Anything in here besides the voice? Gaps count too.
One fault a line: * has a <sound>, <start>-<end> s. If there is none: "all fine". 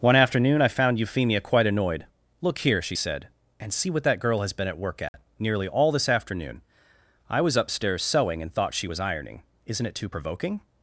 * has a dropout, 5.1-5.1 s